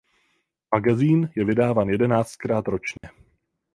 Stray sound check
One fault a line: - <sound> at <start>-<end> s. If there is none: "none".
- dropout at 3.0-3.0 s